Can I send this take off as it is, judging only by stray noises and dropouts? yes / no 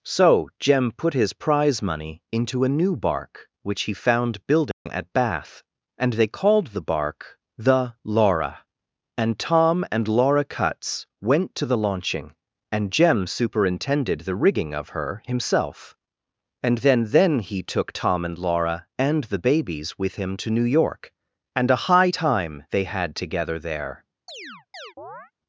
no